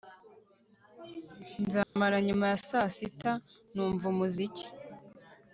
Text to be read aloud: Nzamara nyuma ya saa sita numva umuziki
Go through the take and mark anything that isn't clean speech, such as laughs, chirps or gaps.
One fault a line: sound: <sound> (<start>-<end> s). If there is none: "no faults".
sound: dropout (1.8-2.0 s)